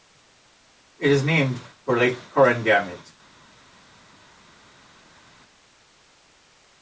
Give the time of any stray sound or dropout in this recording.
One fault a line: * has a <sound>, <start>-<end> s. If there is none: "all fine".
all fine